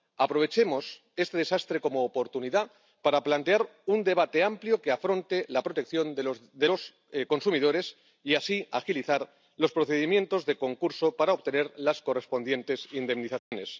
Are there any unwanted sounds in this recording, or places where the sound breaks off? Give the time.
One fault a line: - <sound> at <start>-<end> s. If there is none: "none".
- dropout at 13.4-13.5 s